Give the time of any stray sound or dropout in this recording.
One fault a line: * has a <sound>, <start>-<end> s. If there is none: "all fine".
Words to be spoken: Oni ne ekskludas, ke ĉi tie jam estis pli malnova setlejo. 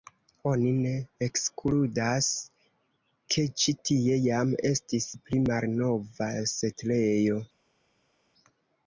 all fine